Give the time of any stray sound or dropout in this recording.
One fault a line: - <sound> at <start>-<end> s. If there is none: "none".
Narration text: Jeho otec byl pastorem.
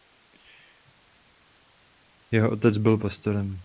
none